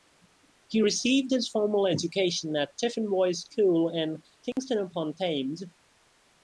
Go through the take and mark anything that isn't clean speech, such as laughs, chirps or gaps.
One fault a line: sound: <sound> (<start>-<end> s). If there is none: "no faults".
sound: dropout (4.5-4.6 s)